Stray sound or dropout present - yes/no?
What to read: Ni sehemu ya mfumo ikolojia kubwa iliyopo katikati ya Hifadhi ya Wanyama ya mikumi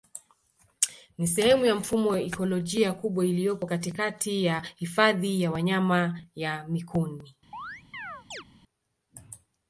yes